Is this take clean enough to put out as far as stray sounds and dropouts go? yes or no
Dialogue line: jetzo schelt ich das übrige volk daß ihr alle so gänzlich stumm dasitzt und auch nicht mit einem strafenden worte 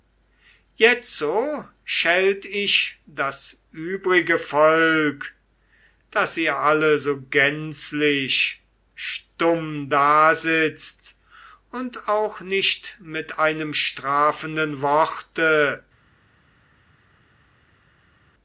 yes